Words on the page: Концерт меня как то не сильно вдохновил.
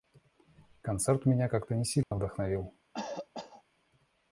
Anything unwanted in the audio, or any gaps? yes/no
yes